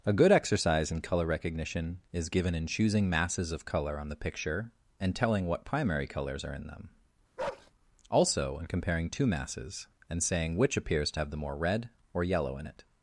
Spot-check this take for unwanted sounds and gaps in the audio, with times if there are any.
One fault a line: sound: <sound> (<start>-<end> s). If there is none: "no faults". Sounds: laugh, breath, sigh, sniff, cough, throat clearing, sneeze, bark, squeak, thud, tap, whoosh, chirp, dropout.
sound: bark (7.4-7.7 s)